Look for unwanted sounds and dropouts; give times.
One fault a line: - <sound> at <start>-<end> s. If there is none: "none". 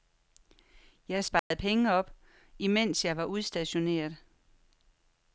- dropout at 1.4-1.5 s